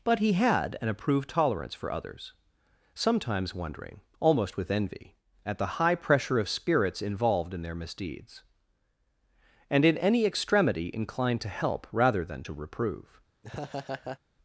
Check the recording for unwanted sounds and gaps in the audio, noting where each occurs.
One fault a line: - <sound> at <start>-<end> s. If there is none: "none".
- laugh at 13.4-14.2 s